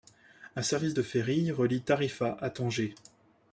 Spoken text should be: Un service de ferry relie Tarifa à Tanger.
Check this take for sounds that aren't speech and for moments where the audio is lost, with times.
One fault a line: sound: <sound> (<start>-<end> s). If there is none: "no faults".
no faults